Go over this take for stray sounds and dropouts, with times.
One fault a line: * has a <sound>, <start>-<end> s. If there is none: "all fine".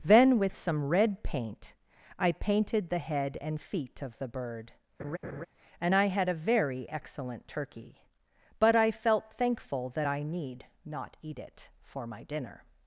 * has a laugh, 5.0-5.5 s